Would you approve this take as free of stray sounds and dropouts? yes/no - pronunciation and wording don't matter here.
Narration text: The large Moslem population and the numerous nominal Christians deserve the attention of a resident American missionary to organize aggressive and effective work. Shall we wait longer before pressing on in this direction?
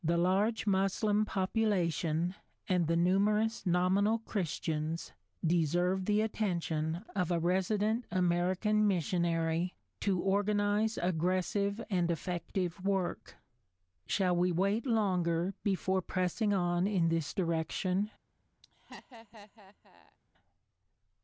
no